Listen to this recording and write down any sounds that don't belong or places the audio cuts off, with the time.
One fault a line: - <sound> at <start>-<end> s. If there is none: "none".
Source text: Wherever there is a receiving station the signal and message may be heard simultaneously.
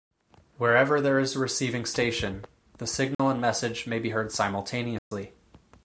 - dropout at 3.1-3.2 s
- dropout at 5.0-5.1 s